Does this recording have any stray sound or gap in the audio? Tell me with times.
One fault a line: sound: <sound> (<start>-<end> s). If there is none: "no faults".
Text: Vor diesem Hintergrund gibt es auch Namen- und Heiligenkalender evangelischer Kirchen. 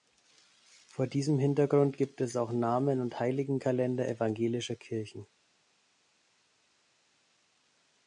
no faults